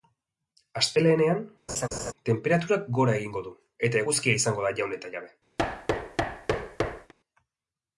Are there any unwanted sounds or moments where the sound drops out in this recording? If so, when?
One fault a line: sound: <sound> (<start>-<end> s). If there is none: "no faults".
sound: laugh (1.7-2.1 s)
sound: thud (5.6-7.1 s)